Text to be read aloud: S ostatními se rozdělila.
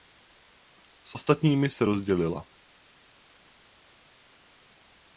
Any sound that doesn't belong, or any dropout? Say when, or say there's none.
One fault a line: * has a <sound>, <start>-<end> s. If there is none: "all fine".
all fine